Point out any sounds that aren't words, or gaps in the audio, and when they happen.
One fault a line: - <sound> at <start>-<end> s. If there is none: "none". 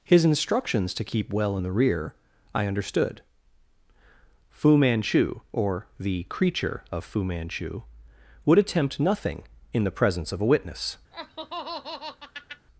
- laugh at 11.1-12.7 s